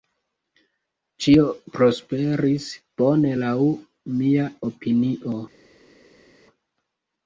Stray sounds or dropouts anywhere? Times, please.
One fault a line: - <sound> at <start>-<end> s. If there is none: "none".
none